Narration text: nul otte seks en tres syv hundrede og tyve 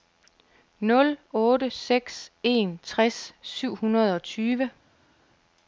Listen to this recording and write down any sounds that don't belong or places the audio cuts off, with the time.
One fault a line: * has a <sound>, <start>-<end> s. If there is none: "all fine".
all fine